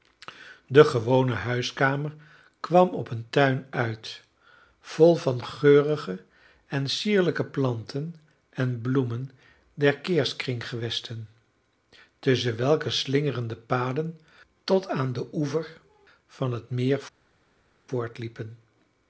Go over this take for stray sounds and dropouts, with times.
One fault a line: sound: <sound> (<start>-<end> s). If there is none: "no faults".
no faults